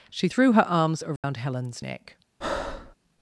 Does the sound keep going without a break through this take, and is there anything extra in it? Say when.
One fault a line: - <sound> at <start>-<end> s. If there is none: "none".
- dropout at 1.2-1.2 s
- breath at 2.4-3.0 s